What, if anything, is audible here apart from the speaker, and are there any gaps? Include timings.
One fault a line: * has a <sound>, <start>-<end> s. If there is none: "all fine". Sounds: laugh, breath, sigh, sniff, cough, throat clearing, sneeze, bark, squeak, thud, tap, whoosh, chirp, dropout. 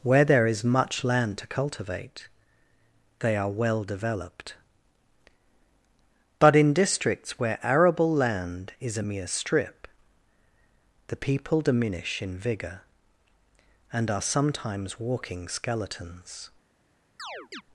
* has a chirp, 17.2-17.6 s